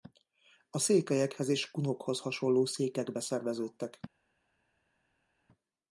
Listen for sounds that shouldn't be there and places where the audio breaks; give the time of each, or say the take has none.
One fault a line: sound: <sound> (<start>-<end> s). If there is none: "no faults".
no faults